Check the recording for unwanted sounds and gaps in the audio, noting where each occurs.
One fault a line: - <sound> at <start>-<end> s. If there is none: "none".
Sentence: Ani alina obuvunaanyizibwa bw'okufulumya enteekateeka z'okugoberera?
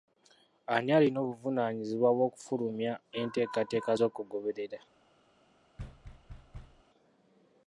- thud at 5.8-6.8 s